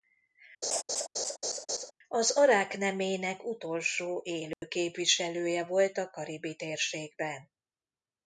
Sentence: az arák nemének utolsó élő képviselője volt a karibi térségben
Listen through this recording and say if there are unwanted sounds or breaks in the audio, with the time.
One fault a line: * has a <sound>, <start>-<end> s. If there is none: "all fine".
* has a laugh, 0.6-1.9 s
* has a dropout, 4.5-4.6 s